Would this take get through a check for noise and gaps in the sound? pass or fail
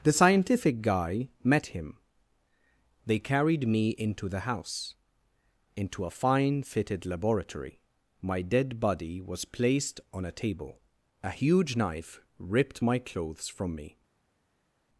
pass